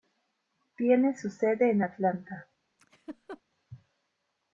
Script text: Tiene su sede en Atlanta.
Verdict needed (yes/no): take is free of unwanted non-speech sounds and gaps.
no